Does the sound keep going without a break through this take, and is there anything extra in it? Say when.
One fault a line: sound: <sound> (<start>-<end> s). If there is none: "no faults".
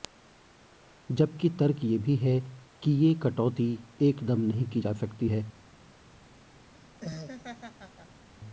sound: laugh (6.7-8.2 s)